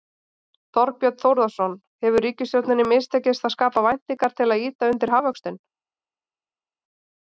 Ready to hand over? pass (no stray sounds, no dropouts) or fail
pass